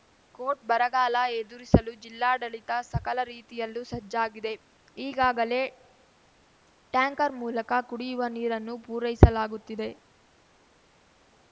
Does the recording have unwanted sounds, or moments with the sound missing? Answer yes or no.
no